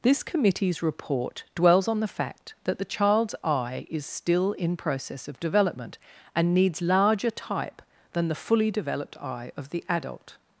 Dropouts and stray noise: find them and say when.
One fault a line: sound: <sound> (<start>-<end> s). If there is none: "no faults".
no faults